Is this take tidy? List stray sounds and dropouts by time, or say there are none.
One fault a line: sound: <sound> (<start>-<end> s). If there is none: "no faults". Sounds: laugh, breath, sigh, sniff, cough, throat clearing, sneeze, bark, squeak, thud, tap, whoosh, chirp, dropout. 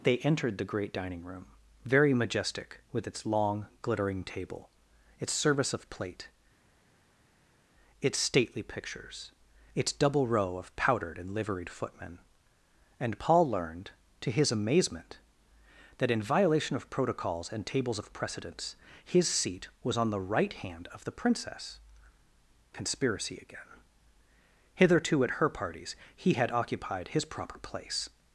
no faults